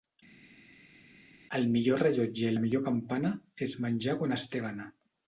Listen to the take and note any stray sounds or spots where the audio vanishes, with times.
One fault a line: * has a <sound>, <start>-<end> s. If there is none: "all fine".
all fine